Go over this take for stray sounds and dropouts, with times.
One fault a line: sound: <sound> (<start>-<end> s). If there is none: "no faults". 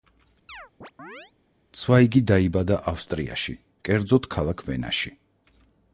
sound: chirp (0.5-1.3 s)